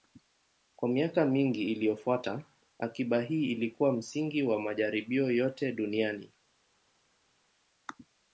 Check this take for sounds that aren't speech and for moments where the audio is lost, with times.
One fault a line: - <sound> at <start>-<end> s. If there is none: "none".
none